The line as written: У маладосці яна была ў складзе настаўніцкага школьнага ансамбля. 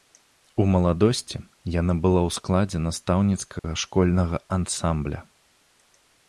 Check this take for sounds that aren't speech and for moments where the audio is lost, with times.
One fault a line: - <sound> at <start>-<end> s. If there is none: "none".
- dropout at 3.6-3.6 s